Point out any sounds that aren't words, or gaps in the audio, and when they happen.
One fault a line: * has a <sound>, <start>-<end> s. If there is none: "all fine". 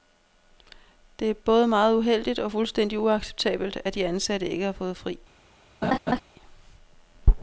* has a laugh, 5.8-6.2 s